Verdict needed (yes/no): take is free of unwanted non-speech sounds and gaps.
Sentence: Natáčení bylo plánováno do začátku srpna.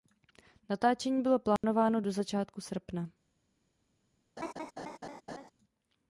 no